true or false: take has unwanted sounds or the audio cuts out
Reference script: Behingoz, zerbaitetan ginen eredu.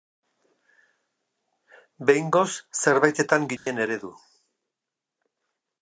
true